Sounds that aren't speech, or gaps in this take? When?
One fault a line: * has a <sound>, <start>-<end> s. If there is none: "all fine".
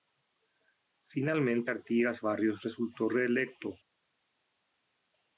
all fine